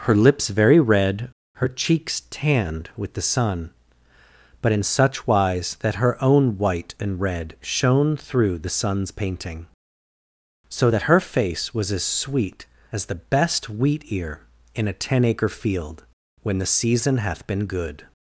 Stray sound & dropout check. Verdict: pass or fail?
pass